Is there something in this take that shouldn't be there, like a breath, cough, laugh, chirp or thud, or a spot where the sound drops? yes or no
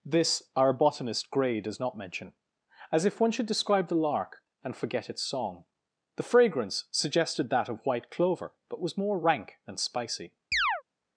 yes